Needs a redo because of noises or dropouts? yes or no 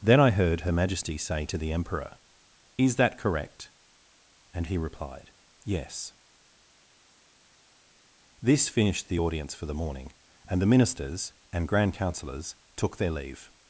no